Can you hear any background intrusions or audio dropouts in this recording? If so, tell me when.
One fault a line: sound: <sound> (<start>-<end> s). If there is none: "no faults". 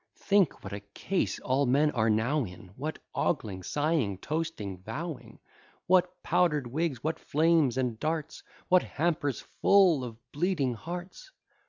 no faults